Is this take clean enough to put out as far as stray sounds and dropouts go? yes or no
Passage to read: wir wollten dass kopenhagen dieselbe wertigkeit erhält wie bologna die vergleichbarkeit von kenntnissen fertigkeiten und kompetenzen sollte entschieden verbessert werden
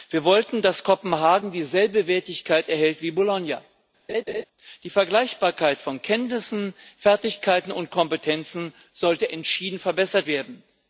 no